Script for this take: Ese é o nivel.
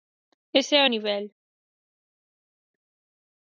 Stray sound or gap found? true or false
false